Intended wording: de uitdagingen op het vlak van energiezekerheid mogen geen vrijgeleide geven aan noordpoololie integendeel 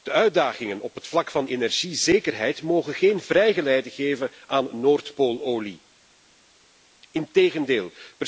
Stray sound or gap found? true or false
false